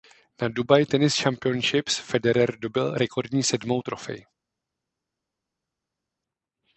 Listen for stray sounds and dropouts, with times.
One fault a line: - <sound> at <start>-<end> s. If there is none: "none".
none